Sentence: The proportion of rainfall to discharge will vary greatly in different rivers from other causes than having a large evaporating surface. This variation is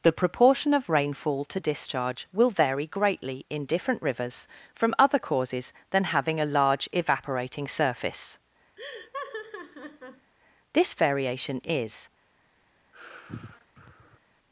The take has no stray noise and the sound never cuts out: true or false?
false